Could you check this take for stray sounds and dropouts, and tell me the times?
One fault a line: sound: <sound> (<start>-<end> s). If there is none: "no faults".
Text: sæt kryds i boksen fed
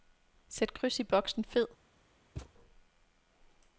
sound: thud (2.4-2.5 s)